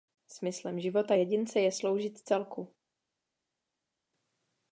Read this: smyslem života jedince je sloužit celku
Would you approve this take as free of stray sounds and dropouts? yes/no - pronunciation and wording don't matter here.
yes